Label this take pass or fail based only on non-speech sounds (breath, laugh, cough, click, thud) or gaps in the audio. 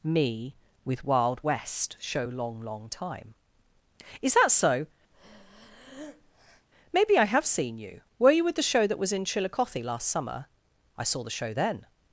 fail